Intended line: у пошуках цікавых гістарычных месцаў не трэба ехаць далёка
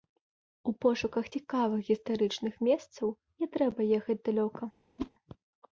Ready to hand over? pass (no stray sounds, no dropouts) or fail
fail